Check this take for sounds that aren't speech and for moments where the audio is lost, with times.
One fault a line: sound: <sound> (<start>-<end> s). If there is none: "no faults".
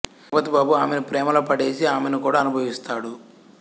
no faults